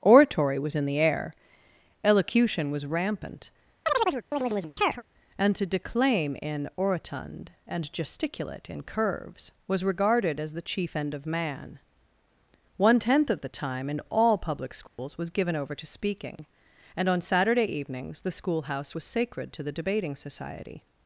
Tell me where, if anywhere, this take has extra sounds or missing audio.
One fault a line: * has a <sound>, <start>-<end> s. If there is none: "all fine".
* has a chirp, 3.8-5.0 s
* has a dropout, 14.9-15.0 s